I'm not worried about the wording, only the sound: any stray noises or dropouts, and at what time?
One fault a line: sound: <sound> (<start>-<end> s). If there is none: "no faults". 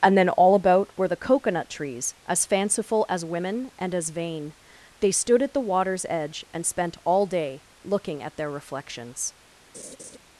sound: laugh (9.7-10.2 s)